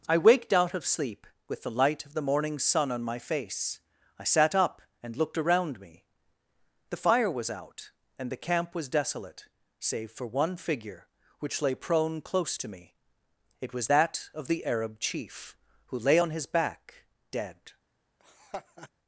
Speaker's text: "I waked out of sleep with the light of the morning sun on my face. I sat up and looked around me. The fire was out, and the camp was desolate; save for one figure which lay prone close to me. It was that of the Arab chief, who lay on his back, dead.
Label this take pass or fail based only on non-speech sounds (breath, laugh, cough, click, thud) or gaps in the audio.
fail